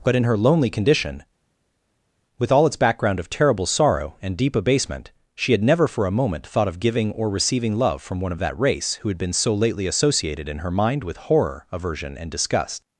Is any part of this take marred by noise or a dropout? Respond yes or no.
no